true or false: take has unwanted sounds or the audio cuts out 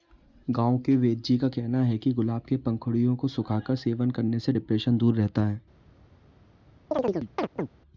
true